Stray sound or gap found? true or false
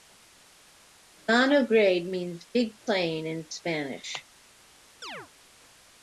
true